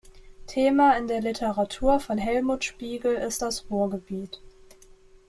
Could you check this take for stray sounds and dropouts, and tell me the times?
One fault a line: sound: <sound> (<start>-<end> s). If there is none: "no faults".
no faults